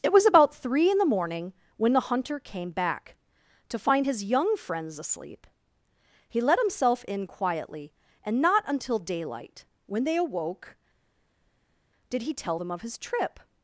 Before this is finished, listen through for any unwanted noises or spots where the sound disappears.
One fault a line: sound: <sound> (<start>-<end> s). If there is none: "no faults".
no faults